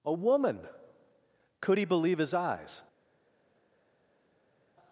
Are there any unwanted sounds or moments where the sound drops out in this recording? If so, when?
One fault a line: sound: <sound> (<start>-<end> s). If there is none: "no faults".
no faults